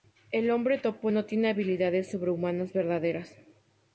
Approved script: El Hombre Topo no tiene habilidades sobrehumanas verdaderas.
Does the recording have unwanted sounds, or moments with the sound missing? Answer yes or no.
no